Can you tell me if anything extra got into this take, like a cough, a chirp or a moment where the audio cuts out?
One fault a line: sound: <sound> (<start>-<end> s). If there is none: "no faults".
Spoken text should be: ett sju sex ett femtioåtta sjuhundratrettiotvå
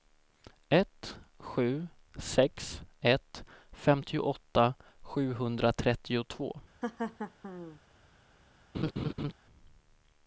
sound: laugh (6.8-7.8 s)
sound: laugh (8.7-9.3 s)